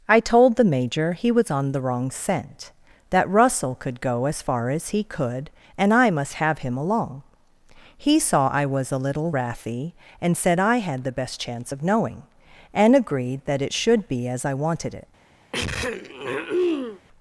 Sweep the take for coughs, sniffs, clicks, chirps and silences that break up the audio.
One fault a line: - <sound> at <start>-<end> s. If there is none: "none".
- throat clearing at 15.5-17.0 s